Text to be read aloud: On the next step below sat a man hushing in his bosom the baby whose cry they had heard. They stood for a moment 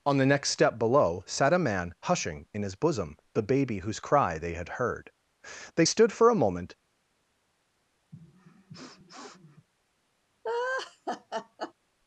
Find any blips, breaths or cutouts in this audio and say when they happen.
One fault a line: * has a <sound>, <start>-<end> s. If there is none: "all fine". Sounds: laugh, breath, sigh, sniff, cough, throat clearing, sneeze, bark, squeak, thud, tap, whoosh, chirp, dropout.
* has a sniff, 8.1-9.7 s
* has a laugh, 10.4-11.7 s